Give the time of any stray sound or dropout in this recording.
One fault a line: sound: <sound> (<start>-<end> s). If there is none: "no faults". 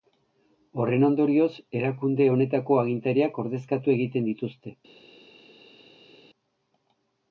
no faults